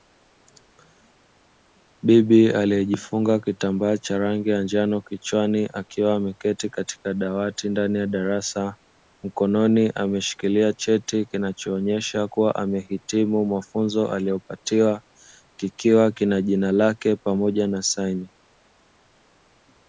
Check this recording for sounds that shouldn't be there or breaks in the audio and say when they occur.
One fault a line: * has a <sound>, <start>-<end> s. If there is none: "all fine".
all fine